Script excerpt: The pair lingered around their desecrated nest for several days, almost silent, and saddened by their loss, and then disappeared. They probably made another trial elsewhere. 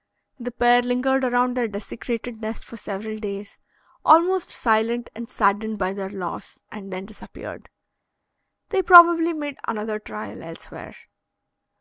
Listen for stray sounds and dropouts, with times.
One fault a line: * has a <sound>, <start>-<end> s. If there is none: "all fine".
all fine